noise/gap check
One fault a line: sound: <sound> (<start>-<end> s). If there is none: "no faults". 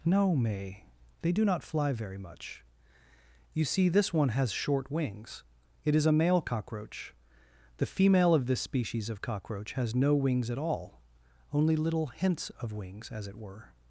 no faults